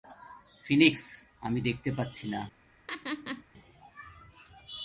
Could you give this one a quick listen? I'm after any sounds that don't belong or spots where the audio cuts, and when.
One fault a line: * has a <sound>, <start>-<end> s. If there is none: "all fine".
* has a laugh, 2.9-3.4 s